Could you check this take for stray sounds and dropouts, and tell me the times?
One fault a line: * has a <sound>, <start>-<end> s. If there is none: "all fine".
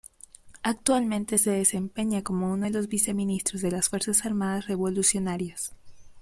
all fine